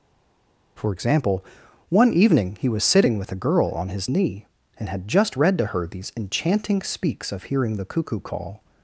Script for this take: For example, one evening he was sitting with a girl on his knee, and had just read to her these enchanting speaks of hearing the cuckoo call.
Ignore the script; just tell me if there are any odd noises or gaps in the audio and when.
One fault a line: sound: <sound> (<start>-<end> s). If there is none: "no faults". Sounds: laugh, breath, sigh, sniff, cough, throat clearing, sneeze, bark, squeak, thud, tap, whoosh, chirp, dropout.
no faults